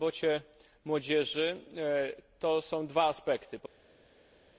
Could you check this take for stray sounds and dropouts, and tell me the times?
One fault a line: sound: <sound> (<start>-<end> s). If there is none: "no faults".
no faults